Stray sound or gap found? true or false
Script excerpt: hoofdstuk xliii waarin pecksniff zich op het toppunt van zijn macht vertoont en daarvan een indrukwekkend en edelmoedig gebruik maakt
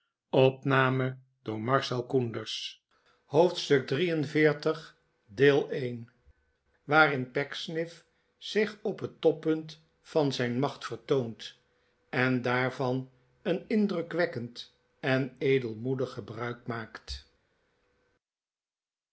false